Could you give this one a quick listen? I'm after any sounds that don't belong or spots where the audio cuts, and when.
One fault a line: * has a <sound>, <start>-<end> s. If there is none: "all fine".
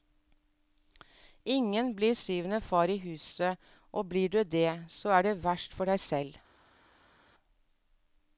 all fine